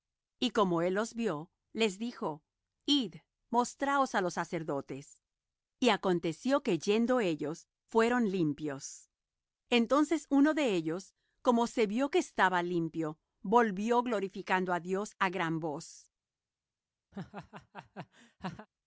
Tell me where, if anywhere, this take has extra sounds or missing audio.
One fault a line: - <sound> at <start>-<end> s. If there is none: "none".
- laugh at 17.1-18.7 s